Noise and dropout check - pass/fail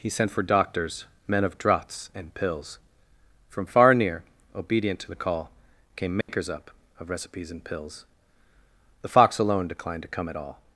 fail